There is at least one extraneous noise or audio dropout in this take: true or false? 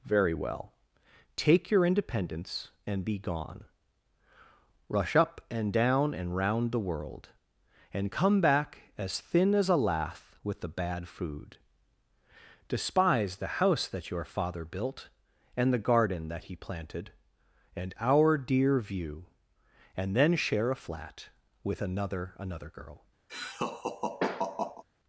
true